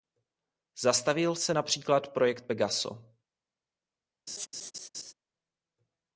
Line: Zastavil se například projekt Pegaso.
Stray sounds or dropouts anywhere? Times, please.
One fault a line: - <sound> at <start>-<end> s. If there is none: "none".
- laugh at 4.3-5.1 s